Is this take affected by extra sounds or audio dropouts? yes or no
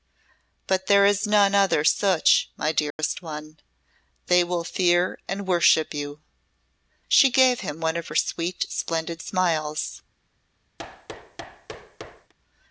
yes